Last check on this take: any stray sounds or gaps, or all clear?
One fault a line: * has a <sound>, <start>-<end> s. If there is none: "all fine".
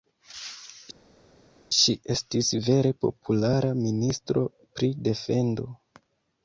all fine